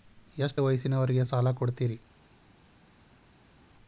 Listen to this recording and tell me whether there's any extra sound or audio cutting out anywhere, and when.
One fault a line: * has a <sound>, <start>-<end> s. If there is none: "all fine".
all fine